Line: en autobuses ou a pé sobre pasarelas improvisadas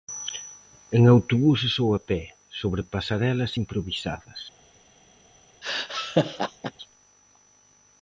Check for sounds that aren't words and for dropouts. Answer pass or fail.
fail